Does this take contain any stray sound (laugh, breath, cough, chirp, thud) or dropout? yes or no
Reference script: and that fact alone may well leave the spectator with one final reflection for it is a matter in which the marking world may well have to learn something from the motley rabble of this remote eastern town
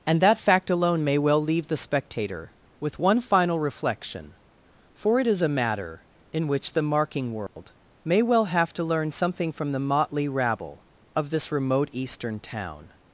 yes